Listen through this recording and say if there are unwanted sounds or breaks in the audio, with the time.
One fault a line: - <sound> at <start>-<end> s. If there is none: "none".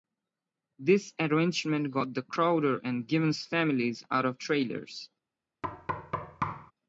- thud at 5.6-6.7 s